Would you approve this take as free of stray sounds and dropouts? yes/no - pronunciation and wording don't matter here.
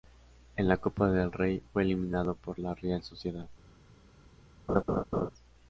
no